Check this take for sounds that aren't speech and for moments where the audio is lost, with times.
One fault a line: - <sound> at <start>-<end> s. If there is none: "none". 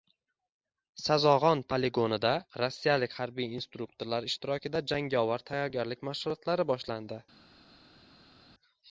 none